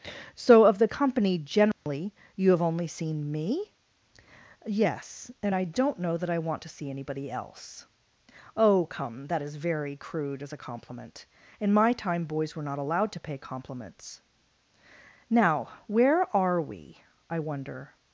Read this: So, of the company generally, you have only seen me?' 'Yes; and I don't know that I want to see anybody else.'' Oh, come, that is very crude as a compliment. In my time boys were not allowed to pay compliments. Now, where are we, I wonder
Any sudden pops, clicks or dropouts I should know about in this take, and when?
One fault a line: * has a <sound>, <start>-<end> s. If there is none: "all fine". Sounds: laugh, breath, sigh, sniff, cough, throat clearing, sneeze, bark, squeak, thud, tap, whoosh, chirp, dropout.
* has a dropout, 1.7-1.9 s